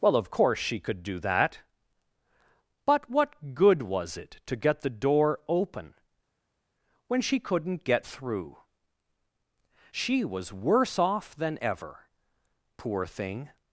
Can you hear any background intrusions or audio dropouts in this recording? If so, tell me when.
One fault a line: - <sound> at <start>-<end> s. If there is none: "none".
none